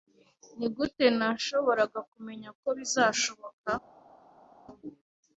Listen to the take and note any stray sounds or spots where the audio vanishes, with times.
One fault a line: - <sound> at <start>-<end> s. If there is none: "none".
none